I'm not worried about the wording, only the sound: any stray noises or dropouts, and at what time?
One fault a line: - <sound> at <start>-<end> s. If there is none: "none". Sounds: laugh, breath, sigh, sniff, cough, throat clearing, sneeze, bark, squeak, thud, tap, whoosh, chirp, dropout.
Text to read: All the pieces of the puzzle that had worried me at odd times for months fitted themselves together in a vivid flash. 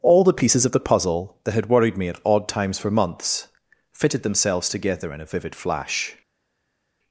none